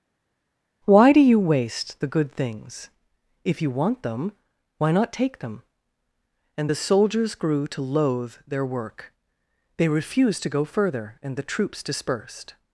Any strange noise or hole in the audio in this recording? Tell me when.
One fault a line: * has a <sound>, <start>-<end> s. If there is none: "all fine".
all fine